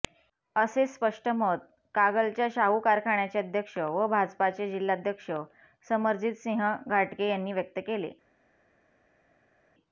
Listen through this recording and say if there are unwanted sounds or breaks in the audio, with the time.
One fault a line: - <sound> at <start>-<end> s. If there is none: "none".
none